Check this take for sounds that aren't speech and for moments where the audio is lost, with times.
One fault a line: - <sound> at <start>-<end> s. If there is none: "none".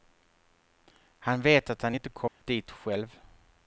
- dropout at 2.3-2.4 s